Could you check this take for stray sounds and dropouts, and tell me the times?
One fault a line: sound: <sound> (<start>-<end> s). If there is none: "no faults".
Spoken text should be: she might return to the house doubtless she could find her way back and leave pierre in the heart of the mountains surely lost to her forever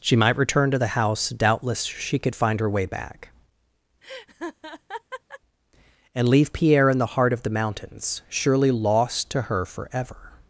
sound: laugh (4.0-5.4 s)